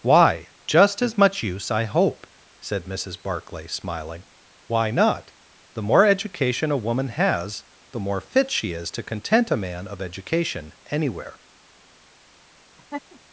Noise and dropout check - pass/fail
fail